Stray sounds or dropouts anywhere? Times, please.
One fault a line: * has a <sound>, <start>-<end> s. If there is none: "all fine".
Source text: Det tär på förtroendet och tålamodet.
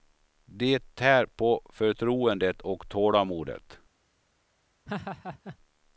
* has a laugh, 4.9-5.6 s